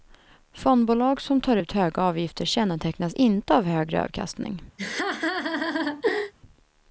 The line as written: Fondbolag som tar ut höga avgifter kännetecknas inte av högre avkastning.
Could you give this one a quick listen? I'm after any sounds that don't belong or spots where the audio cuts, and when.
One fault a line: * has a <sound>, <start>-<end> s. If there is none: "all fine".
* has a laugh, 4.8-6.3 s